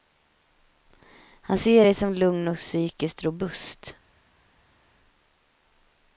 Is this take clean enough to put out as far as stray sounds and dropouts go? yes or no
yes